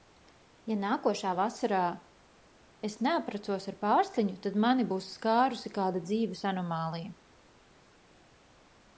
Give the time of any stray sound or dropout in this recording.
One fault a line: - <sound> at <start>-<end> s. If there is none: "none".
none